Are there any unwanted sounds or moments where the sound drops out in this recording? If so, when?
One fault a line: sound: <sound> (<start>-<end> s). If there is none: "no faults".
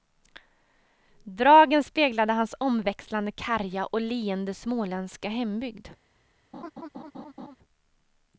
sound: laugh (6.5-7.6 s)